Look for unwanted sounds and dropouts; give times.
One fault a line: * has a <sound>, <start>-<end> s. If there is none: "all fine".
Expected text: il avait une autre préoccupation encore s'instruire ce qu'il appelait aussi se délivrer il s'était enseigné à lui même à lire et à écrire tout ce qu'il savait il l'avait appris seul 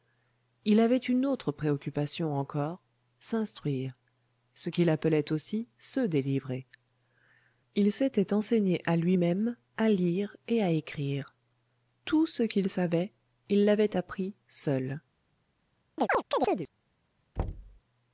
* has a chirp, 16.0-16.7 s
* has a thud, 17.4-17.8 s